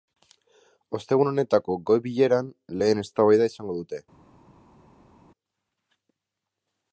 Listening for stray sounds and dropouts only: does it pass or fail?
pass